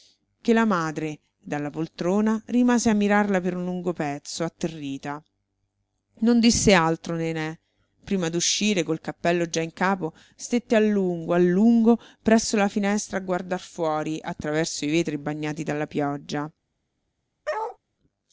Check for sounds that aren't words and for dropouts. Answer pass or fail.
fail